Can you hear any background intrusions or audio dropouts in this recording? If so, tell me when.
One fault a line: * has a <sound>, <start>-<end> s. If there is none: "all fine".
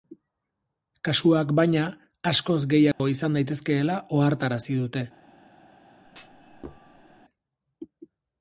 * has a dropout, 2.9-3.0 s
* has a thud, 6.0-7.2 s